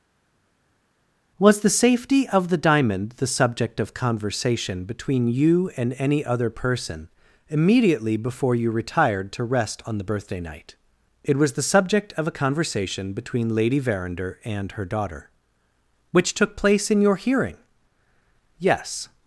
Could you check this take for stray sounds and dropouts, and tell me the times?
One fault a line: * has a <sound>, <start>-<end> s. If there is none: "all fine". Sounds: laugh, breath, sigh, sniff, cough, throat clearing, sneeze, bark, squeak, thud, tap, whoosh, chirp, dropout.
all fine